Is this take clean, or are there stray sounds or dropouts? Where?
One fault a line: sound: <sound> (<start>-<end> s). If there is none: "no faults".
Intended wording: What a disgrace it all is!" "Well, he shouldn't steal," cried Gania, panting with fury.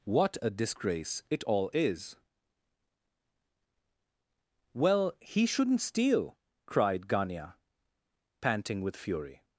no faults